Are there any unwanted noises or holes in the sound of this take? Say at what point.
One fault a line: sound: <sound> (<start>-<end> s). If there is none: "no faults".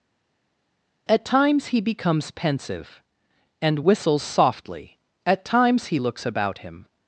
no faults